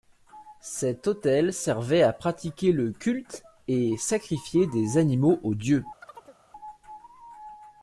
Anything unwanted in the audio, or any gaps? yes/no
yes